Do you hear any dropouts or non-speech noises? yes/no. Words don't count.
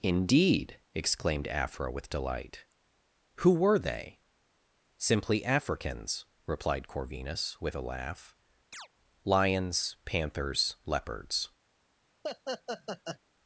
yes